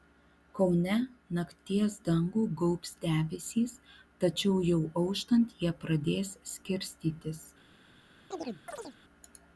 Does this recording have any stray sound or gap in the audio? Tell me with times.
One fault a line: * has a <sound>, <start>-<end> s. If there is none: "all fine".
* has a chirp, 8.3-9.0 s